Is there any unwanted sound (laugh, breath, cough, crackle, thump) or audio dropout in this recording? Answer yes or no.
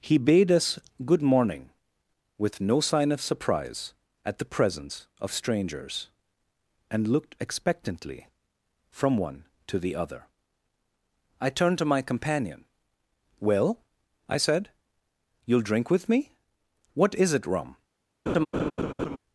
yes